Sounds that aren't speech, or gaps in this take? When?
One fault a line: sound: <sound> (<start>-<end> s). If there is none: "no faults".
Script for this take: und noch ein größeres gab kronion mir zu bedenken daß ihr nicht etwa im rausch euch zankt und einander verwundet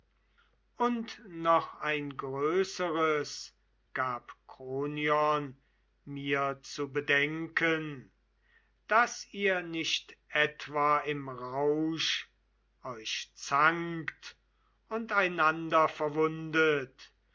no faults